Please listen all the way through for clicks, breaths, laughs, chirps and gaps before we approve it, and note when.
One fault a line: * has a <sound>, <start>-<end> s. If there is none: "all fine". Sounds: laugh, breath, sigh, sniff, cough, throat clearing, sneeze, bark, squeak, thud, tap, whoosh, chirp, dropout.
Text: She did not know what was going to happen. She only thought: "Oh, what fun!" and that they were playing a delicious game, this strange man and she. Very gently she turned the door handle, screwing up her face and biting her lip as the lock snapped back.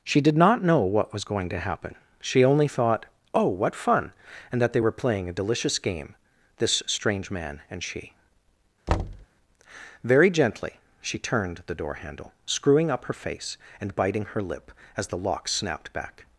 * has a thud, 8.9-9.3 s